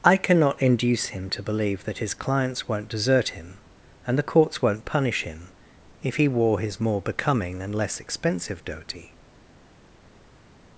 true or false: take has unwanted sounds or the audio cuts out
false